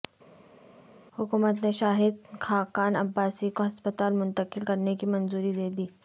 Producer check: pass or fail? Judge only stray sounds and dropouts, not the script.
pass